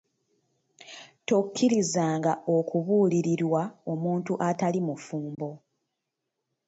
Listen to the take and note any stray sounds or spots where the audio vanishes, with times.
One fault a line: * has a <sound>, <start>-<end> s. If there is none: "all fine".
* has a dropout, 5.3-5.4 s